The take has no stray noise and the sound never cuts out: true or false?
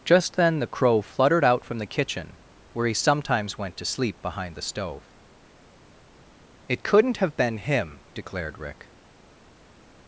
true